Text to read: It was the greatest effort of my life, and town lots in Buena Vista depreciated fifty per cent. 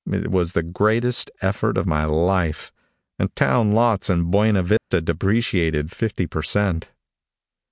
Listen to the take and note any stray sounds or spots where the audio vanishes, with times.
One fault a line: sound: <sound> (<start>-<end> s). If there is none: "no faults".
sound: dropout (4.8-4.9 s)